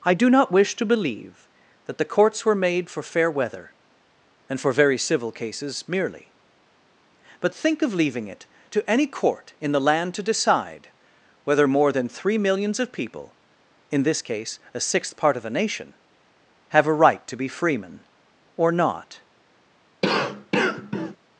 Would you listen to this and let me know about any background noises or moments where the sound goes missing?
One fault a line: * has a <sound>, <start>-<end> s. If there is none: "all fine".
* has a cough, 20.0-21.2 s